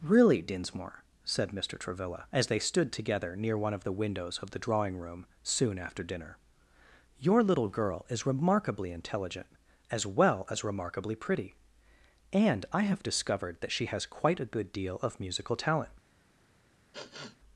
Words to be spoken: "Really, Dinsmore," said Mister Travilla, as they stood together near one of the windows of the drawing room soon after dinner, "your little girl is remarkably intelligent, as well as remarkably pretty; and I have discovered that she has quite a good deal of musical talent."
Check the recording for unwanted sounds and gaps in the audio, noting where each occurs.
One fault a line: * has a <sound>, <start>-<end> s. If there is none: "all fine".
* has a sniff, 16.9-17.4 s